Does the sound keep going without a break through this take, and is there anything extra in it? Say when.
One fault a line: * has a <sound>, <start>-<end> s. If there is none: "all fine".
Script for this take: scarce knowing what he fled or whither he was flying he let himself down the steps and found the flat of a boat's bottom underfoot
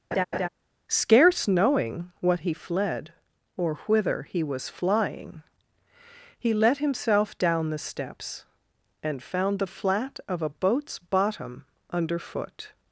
* has a laugh, 0.1-0.5 s